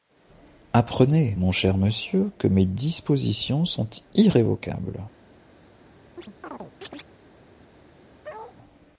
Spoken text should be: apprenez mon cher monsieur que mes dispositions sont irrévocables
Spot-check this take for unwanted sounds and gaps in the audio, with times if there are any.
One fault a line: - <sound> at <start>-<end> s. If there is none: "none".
- chirp at 6.2-7.1 s
- bark at 8.2-8.6 s